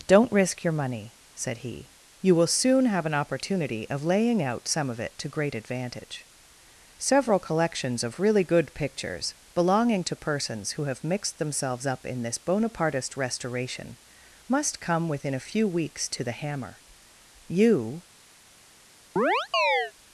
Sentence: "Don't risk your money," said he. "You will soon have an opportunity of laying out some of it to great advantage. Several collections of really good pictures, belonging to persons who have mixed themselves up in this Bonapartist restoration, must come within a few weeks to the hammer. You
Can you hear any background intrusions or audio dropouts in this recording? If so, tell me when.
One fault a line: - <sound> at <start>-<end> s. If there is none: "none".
- chirp at 19.2-19.9 s